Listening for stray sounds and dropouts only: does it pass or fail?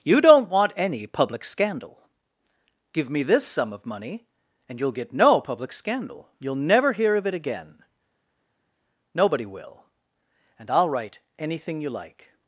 pass